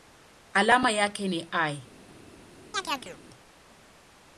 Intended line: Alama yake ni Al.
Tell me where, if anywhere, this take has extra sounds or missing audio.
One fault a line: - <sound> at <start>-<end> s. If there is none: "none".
- chirp at 2.7-3.2 s